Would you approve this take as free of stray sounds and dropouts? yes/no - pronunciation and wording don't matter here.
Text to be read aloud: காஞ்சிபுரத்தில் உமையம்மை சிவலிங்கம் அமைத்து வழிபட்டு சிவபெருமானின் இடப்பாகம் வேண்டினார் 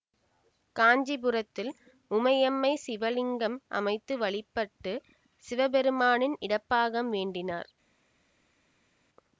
yes